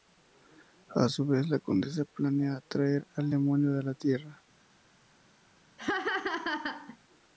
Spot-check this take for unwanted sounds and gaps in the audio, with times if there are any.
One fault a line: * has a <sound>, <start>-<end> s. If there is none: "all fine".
* has a laugh, 5.8-7.0 s